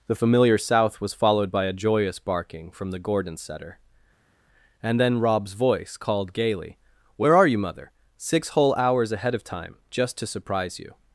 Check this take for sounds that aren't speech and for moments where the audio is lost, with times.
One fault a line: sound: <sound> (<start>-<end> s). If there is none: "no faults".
no faults